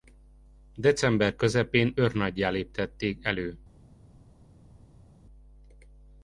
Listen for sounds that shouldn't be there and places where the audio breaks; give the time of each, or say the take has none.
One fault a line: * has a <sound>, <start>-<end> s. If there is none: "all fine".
all fine